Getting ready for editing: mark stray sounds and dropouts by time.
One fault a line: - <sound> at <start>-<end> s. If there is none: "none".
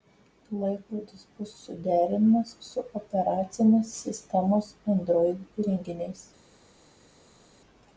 none